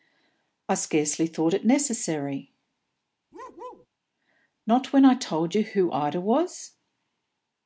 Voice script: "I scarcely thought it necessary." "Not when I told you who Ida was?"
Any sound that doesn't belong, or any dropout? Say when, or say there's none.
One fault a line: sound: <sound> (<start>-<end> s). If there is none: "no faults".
sound: bark (3.3-3.9 s)